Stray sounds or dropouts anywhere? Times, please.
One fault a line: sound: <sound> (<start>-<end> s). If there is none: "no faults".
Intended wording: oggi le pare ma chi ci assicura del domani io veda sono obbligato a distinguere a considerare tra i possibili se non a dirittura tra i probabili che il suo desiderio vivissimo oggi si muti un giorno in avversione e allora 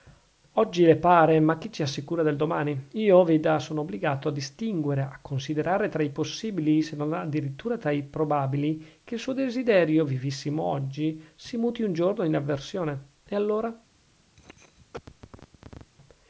sound: cough (14.4-15.9 s)